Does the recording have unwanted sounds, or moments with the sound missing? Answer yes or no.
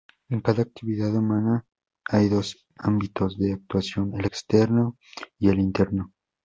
no